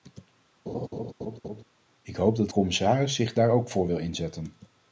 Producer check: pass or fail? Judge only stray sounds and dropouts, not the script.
fail